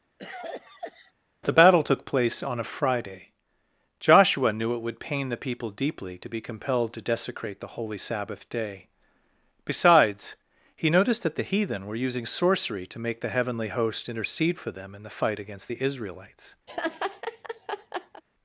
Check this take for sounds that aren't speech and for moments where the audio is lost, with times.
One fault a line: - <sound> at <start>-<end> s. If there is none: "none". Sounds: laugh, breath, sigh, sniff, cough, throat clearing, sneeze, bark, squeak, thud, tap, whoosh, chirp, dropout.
- cough at 0.2-1.1 s
- laugh at 16.7-18.2 s